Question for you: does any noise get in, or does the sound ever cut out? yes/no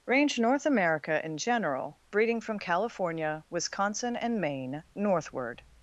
no